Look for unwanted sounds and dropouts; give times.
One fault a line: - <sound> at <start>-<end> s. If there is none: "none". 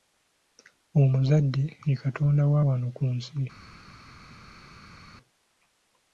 none